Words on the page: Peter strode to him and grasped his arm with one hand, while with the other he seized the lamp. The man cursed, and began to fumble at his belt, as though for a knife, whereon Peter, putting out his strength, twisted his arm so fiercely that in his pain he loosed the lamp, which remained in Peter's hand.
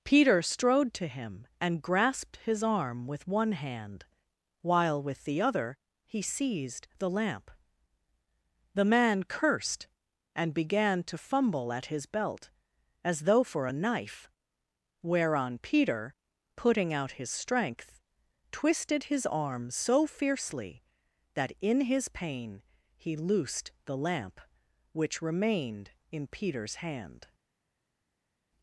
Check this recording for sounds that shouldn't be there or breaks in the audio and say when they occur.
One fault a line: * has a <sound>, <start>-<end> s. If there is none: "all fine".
all fine